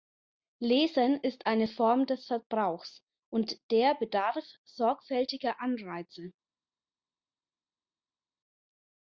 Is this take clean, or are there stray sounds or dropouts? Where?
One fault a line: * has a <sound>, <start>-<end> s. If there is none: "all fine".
all fine